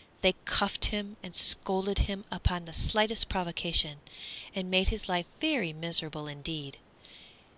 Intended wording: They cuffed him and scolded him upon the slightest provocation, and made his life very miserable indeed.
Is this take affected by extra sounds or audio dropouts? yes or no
no